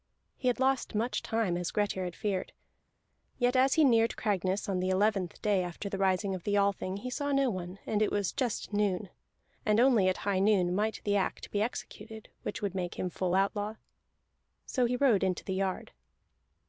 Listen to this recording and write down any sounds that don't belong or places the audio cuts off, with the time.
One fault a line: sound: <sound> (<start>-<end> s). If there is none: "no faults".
no faults